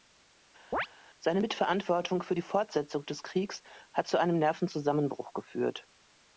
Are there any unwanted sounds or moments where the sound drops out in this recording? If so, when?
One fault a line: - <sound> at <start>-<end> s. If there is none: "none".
- chirp at 0.7-0.9 s